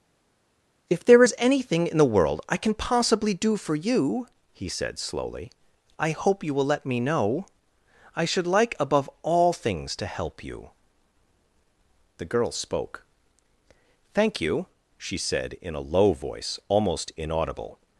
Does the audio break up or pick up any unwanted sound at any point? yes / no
no